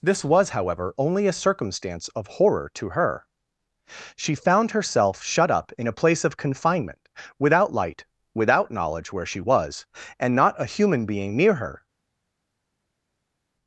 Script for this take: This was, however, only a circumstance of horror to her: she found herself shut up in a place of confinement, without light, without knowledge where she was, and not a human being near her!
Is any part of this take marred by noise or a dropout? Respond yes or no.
no